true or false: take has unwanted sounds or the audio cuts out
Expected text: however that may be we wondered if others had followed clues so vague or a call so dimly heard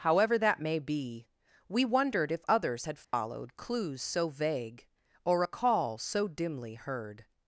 true